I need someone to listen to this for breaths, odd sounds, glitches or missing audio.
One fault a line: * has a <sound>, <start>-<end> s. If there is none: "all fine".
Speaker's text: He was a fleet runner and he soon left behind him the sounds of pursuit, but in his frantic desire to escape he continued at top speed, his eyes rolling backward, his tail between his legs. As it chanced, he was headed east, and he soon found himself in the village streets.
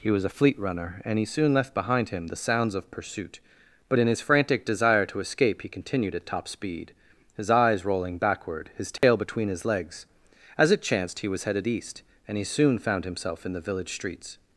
* has a dropout, 9.0-9.0 s